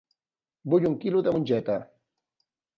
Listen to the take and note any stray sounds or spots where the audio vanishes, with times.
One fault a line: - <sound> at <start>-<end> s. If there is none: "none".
none